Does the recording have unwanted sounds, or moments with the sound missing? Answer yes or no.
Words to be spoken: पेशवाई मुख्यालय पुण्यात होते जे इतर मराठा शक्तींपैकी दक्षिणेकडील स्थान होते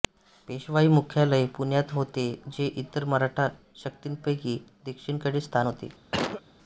yes